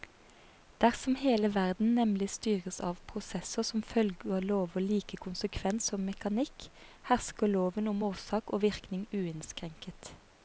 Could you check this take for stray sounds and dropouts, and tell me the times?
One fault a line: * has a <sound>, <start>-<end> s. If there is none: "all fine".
all fine